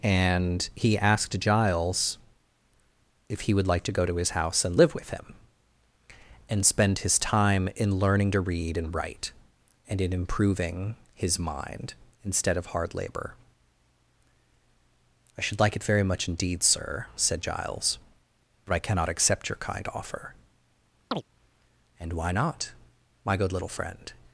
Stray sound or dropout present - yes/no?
yes